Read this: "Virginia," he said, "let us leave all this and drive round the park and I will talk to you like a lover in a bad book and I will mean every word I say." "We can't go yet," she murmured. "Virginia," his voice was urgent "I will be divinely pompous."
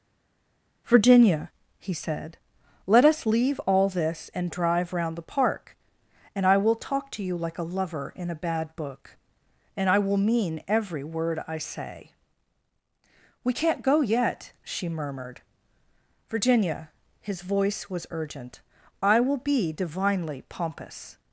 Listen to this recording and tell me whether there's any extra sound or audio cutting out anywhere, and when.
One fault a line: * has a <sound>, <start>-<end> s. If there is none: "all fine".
all fine